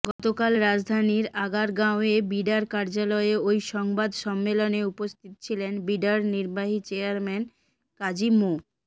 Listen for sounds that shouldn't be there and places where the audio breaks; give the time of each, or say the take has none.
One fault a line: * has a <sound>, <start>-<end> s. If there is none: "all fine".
* has a dropout, 0.1-0.2 s